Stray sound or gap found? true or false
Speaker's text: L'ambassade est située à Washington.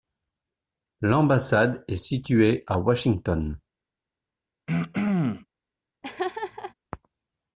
true